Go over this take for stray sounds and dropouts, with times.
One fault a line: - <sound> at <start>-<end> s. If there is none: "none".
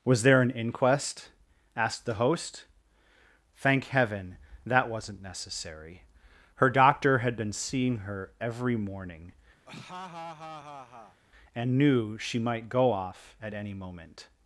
- laugh at 9.7-11.2 s